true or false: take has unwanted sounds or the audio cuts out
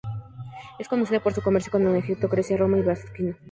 false